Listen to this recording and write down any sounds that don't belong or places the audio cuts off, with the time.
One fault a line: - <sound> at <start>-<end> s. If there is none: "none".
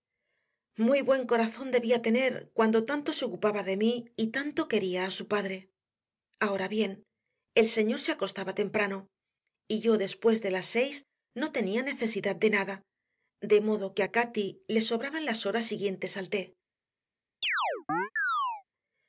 - chirp at 17.4-18.6 s